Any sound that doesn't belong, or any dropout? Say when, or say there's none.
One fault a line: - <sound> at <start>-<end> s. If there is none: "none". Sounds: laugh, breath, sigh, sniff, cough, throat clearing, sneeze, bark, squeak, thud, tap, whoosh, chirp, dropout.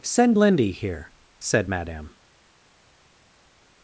none